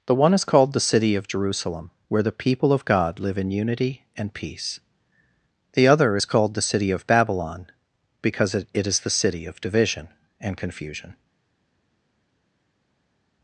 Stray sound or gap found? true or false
false